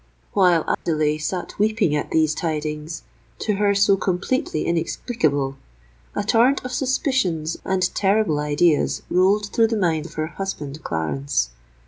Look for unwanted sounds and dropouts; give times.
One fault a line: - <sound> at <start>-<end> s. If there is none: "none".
- dropout at 0.7-0.9 s